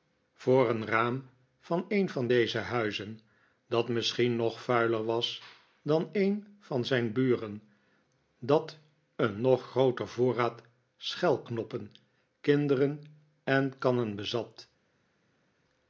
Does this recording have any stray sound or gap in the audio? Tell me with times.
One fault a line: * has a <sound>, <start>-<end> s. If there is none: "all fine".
all fine